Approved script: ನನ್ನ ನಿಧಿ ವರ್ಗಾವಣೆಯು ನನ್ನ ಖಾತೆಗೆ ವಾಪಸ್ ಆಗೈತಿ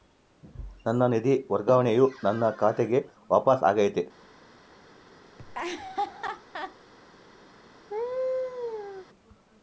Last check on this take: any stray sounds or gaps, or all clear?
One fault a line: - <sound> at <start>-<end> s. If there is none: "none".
- laugh at 5.4-6.8 s
- laugh at 7.9-9.1 s